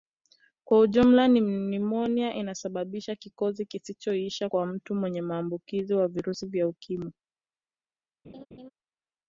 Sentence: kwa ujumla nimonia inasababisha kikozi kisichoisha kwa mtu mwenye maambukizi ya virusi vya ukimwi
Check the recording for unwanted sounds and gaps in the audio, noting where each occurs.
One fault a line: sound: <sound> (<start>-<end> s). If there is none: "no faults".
sound: laugh (8.2-8.7 s)